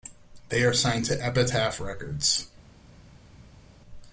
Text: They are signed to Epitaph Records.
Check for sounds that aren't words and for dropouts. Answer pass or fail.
pass